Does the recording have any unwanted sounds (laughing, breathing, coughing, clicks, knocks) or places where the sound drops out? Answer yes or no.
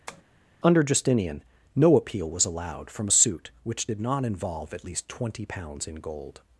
yes